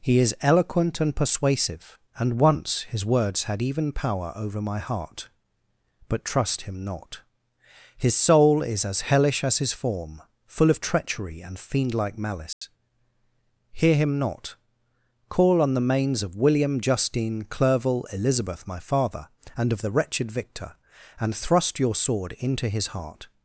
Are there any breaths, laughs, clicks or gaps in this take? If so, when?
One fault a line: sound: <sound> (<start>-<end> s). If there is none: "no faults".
sound: dropout (12.5-12.6 s)